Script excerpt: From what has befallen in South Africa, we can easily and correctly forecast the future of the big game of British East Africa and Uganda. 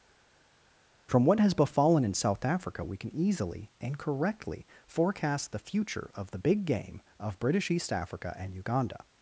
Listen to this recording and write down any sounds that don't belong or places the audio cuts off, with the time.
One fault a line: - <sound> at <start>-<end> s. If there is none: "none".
none